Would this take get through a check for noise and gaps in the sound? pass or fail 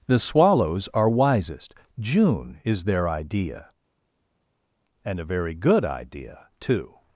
pass